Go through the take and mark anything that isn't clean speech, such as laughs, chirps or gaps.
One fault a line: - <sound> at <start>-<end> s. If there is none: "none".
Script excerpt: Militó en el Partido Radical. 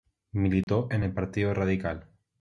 - dropout at 0.6-0.7 s